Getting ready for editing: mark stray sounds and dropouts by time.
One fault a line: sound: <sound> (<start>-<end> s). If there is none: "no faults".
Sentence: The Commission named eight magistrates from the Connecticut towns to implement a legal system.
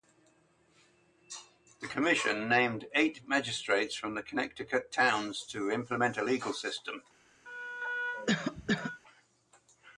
sound: cough (7.5-9.0 s)